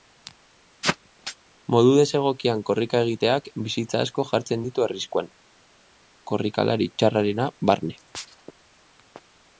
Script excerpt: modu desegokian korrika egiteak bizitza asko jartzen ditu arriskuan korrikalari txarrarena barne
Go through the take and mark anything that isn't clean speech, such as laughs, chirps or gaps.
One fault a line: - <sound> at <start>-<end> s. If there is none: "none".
none